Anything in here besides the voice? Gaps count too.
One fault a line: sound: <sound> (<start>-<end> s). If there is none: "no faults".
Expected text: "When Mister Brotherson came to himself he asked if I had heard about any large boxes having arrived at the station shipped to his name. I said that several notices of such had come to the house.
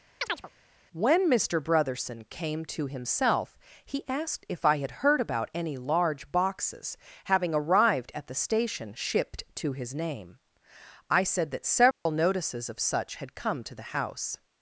sound: chirp (0.2-0.5 s)
sound: dropout (11.9-12.1 s)